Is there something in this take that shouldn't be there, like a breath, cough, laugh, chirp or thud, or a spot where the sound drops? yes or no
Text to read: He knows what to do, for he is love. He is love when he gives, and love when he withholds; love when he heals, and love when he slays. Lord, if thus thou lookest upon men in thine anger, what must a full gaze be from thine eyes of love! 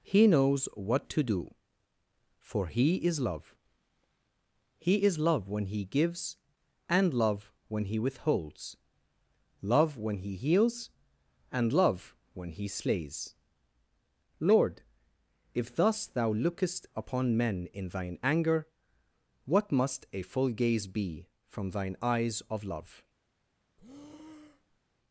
yes